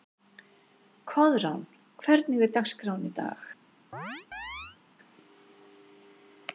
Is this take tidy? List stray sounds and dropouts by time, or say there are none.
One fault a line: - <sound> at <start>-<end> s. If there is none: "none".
- chirp at 3.9-4.8 s